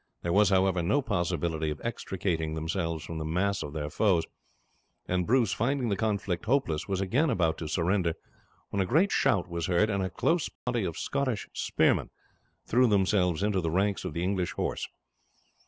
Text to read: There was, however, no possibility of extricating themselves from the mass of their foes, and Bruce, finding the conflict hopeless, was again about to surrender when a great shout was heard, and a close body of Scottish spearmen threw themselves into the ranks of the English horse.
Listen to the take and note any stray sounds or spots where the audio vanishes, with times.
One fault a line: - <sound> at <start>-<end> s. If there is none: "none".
- dropout at 10.6-10.7 s